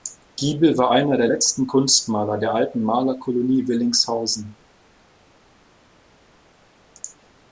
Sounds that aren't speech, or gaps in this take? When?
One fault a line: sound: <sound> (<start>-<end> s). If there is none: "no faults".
no faults